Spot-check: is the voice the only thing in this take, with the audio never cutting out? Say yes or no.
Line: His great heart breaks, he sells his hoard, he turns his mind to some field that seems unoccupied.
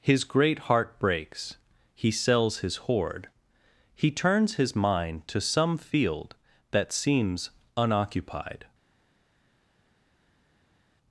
yes